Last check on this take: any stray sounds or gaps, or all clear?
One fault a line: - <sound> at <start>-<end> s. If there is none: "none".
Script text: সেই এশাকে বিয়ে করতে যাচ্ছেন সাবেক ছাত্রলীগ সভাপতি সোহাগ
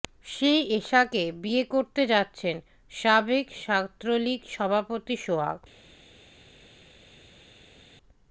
none